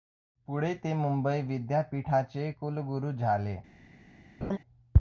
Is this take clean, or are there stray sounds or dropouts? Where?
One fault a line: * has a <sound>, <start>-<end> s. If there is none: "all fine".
* has a laugh, 4.4-4.6 s